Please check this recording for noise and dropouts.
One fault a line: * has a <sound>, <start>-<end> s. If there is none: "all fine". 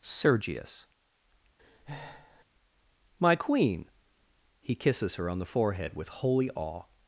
* has a breath, 1.6-2.4 s